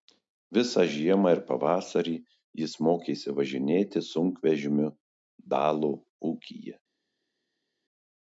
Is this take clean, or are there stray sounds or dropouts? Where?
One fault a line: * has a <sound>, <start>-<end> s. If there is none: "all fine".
all fine